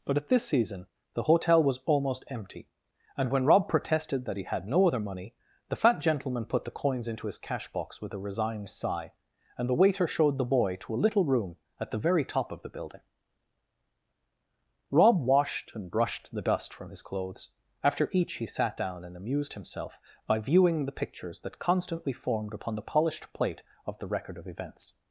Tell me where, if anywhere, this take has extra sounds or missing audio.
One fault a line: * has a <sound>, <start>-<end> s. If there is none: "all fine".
all fine